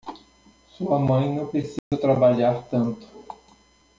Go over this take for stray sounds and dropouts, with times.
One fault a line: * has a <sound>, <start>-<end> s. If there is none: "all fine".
* has a dropout, 1.8-1.9 s